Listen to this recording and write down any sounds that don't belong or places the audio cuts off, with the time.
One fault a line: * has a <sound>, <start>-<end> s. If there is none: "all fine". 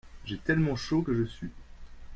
all fine